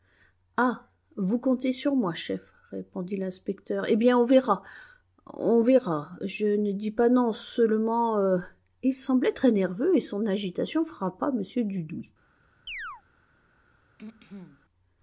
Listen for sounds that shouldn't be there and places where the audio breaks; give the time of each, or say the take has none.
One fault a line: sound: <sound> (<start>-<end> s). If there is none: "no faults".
sound: chirp (12.7-13.0 s)
sound: throat clearing (14.0-14.6 s)